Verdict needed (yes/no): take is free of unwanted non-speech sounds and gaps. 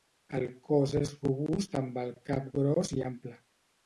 yes